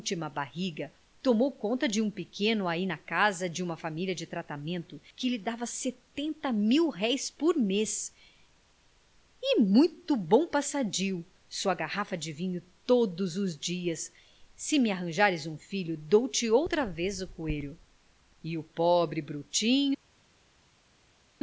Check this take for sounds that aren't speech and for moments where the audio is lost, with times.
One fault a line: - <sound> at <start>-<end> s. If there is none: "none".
none